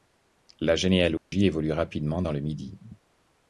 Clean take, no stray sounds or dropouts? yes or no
no